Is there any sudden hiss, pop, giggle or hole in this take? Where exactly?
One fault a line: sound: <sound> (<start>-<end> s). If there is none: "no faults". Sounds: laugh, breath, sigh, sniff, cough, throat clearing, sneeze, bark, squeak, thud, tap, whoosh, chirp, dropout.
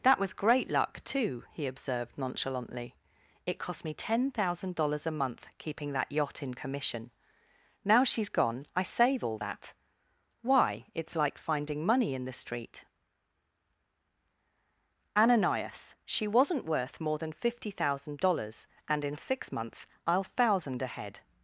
no faults